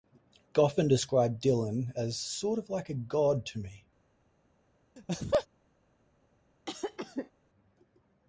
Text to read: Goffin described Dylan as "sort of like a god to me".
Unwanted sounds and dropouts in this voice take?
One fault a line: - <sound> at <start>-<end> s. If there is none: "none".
- laugh at 5.0-5.5 s
- cough at 6.7-7.3 s